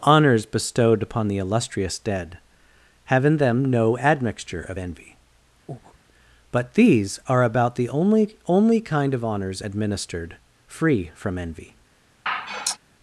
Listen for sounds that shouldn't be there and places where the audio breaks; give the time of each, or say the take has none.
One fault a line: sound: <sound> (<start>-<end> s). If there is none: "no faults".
sound: breath (5.7-6.0 s)
sound: sigh (12.3-12.8 s)